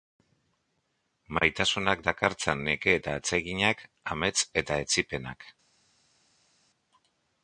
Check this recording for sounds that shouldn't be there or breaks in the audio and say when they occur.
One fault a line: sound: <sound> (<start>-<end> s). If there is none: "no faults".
no faults